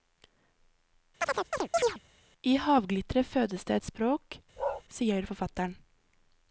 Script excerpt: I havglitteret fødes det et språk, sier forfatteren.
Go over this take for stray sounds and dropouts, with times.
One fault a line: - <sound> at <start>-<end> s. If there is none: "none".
- chirp at 1.2-2.0 s
- bark at 4.6-4.8 s